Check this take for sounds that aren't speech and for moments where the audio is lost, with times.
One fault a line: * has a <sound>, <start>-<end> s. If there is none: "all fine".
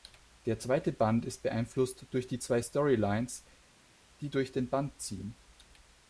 all fine